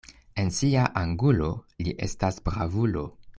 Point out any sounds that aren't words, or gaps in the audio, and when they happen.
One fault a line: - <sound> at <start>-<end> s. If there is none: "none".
none